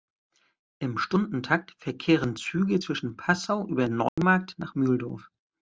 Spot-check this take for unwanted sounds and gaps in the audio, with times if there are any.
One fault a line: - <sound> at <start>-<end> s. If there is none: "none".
- dropout at 4.1-4.2 s